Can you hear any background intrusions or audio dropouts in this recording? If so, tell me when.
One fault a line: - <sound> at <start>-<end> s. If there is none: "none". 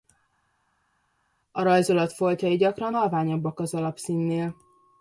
none